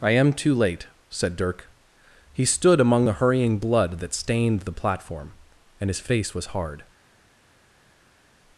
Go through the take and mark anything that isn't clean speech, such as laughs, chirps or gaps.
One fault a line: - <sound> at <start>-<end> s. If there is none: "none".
none